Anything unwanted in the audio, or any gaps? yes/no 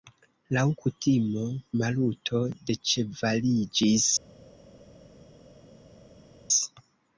no